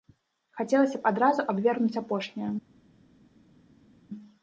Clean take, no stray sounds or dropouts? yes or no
yes